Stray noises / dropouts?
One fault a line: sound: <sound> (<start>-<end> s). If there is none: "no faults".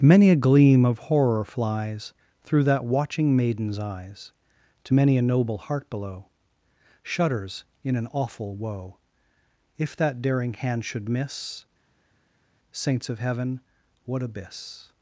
no faults